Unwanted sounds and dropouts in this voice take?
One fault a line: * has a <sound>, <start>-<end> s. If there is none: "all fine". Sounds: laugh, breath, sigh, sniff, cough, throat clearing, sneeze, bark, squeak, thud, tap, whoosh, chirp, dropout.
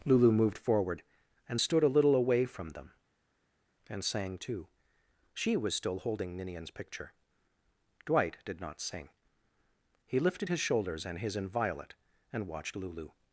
all fine